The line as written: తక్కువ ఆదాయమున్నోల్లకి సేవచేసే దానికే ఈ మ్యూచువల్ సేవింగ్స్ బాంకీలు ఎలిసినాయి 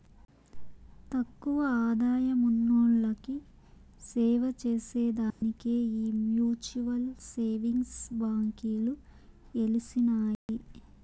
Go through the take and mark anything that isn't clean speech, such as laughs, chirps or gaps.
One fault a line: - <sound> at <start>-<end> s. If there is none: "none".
- dropout at 5.3-5.4 s
- dropout at 10.3-10.5 s